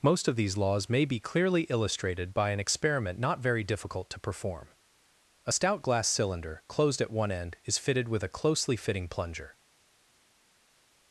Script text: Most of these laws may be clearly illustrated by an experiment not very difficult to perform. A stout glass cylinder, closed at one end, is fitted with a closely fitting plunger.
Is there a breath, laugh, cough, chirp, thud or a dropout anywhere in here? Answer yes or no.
no